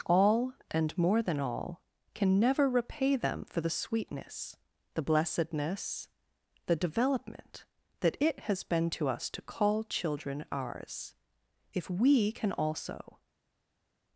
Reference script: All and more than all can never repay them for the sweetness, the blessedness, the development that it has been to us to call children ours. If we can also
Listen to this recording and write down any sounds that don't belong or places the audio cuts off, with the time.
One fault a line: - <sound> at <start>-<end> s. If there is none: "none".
none